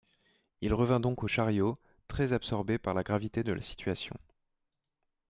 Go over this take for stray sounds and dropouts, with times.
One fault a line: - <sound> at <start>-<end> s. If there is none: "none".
none